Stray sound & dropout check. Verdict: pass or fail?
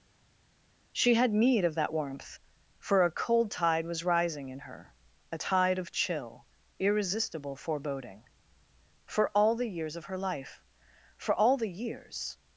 pass